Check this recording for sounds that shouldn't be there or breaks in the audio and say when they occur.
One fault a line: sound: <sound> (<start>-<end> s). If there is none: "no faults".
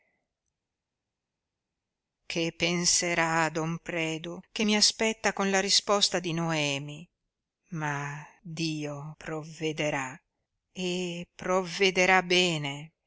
no faults